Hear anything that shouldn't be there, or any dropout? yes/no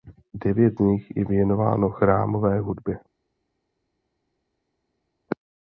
no